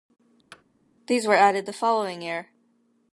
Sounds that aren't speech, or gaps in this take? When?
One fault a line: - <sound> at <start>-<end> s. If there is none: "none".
- thud at 0.5-0.6 s